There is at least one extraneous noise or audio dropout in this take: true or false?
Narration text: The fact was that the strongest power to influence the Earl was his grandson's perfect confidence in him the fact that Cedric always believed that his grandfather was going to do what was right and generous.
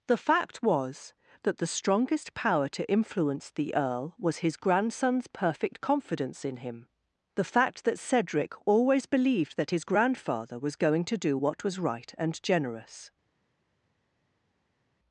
false